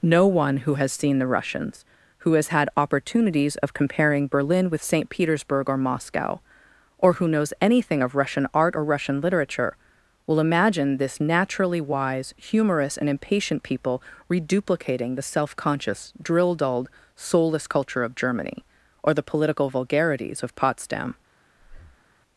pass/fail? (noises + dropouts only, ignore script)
fail